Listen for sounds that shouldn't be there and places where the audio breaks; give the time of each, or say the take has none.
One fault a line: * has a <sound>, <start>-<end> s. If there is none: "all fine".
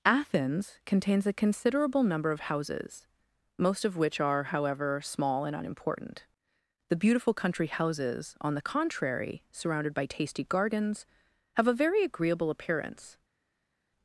all fine